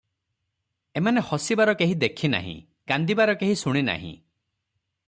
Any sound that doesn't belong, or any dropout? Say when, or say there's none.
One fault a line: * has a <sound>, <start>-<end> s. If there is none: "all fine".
all fine